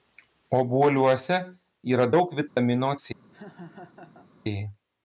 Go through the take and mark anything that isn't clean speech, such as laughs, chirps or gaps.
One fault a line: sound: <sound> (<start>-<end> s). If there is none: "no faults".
sound: dropout (2.5-2.6 s)
sound: laugh (3.3-4.3 s)